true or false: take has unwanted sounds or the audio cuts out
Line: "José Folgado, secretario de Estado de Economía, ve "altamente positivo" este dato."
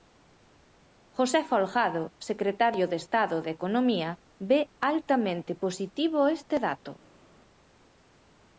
false